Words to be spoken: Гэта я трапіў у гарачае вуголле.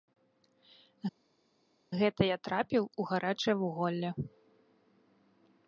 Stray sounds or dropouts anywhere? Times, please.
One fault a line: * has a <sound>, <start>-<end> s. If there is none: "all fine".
all fine